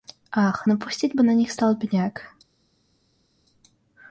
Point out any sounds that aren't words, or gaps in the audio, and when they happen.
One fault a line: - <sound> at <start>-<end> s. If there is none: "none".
none